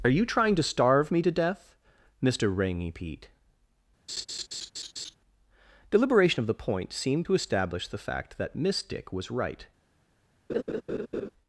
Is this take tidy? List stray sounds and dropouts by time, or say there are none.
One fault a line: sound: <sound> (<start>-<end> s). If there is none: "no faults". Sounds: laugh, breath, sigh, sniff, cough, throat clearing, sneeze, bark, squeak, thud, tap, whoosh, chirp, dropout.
sound: laugh (4.1-5.2 s)
sound: laugh (10.5-11.3 s)